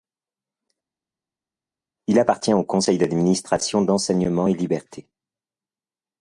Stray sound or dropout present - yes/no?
no